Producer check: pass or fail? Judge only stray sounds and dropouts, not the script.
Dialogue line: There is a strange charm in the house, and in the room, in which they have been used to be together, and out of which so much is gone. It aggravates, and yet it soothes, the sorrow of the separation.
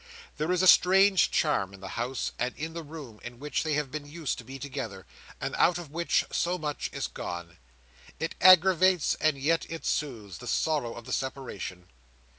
pass